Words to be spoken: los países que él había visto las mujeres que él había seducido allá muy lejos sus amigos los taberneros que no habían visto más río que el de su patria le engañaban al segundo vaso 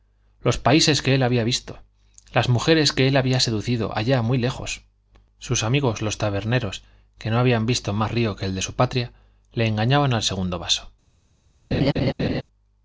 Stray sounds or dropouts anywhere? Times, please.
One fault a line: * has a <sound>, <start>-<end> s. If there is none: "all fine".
* has a laugh, 11.7-12.4 s